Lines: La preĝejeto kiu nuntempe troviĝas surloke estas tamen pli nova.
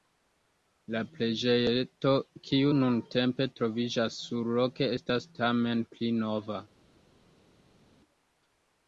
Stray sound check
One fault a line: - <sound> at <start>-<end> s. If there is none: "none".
none